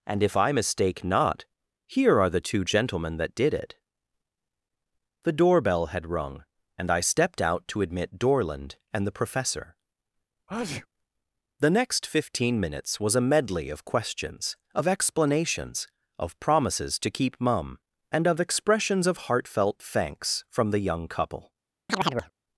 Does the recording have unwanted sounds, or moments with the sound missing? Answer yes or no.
yes